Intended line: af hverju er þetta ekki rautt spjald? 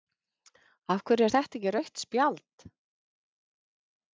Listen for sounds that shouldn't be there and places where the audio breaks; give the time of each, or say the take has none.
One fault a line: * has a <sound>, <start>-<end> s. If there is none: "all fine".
all fine